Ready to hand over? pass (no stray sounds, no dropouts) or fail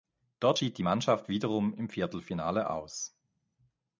pass